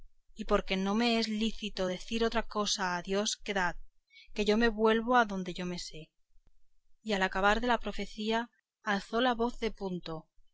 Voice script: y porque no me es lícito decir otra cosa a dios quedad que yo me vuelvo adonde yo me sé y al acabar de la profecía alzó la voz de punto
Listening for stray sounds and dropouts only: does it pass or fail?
pass